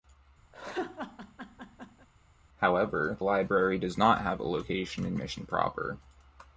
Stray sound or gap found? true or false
true